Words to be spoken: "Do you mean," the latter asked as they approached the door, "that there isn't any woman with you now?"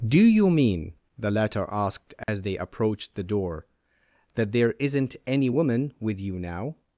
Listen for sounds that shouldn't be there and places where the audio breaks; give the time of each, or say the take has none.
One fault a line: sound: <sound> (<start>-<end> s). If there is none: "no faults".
sound: dropout (2.2-2.3 s)